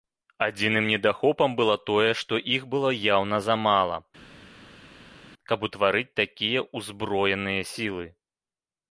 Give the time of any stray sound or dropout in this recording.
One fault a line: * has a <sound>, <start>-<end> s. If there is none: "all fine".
all fine